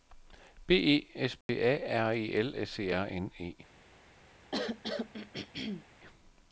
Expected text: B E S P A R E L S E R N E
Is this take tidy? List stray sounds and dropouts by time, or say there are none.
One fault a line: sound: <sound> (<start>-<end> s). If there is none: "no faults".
sound: dropout (1.4-1.5 s)
sound: throat clearing (4.5-5.9 s)